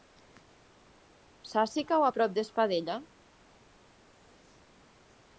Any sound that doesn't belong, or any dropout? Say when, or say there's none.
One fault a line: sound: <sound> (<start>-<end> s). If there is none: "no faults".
no faults